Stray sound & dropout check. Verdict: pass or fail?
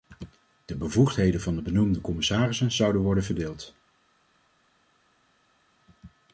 pass